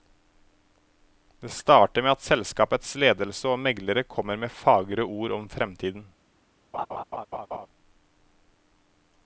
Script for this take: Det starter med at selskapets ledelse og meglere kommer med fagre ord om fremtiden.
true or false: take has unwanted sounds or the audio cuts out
true